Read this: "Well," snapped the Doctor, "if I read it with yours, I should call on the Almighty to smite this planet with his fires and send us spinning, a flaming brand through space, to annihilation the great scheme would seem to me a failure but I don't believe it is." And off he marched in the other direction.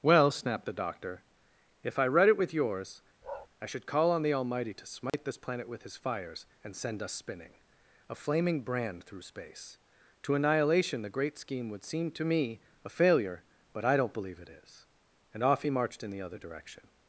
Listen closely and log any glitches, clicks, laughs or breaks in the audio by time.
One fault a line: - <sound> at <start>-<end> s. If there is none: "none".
- bark at 3.2-3.5 s
- dropout at 5.1-5.1 s